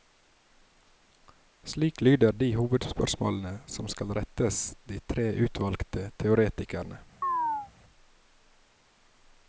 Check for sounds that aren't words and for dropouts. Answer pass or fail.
fail